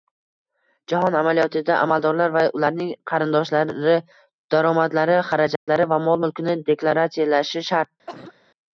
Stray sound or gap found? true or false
true